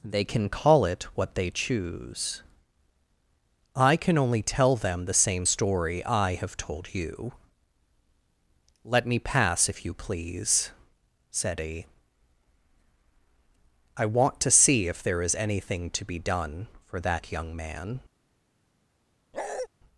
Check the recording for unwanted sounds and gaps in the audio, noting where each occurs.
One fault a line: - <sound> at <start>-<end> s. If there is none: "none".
- bark at 19.3-19.7 s